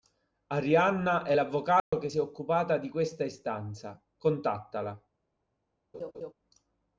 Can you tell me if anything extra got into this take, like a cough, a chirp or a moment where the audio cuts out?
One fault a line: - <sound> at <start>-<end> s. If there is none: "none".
- dropout at 1.8-1.9 s
- laugh at 5.9-6.3 s